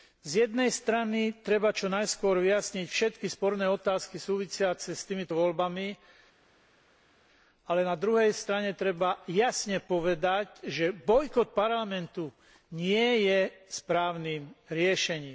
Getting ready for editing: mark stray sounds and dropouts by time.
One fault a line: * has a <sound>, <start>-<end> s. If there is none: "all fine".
all fine